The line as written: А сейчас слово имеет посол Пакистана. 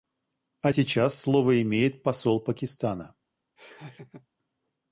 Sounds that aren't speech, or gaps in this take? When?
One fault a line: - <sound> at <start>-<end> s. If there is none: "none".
- laugh at 3.6-4.3 s